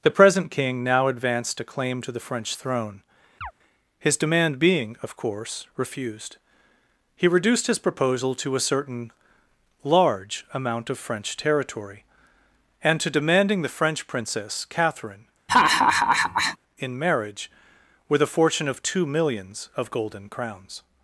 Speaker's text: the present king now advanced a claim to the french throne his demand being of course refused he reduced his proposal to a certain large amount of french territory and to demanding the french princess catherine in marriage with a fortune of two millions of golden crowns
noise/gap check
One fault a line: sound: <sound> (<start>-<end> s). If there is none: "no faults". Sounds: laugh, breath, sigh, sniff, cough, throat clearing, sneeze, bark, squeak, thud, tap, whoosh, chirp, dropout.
sound: chirp (3.4-3.5 s)
sound: laugh (15.5-16.6 s)